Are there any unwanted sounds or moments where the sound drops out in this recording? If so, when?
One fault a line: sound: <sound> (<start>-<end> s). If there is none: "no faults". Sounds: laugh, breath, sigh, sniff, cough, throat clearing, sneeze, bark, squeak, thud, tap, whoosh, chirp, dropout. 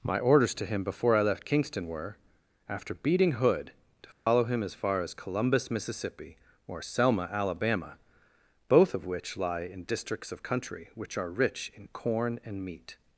sound: dropout (4.1-4.3 s)